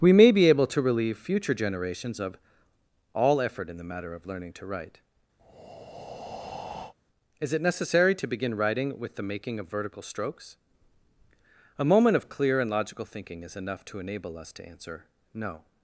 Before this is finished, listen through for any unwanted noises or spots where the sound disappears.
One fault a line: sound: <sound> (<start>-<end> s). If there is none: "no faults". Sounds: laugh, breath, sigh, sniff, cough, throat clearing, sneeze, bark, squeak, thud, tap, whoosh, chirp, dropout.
sound: breath (5.4-6.9 s)